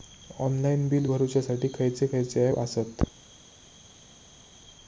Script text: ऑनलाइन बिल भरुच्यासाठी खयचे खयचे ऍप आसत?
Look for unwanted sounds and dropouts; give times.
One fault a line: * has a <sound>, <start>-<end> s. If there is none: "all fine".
all fine